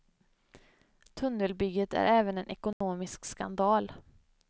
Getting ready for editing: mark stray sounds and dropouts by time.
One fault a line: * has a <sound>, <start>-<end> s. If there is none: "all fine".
* has a dropout, 2.7-2.8 s